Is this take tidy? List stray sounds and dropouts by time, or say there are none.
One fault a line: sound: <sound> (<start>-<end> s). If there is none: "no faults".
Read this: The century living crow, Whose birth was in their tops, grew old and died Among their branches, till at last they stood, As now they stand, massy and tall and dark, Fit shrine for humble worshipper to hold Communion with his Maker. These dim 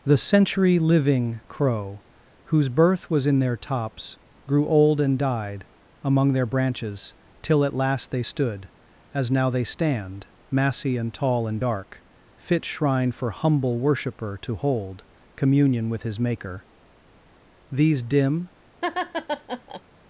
sound: laugh (18.8-19.8 s)